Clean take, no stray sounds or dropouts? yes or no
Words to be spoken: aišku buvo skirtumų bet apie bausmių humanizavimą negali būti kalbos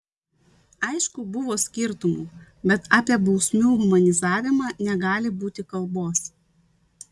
yes